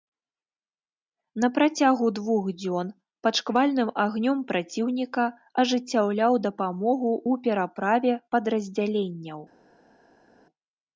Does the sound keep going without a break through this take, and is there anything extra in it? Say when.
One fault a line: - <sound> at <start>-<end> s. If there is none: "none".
none